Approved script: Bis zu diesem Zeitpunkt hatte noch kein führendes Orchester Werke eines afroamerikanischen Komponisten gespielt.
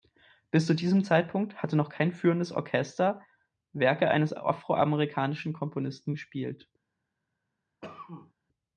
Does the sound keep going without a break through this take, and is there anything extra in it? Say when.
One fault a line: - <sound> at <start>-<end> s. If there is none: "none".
- cough at 7.8-8.3 s